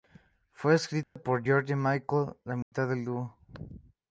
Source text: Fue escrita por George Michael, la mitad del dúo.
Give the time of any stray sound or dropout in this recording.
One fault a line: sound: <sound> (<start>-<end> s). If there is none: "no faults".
sound: dropout (1.0-1.2 s)
sound: dropout (2.6-2.7 s)